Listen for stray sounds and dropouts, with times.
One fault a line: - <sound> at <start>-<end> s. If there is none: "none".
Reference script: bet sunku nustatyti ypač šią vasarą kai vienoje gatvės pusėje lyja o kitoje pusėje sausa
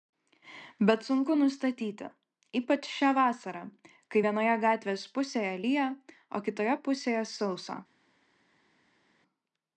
none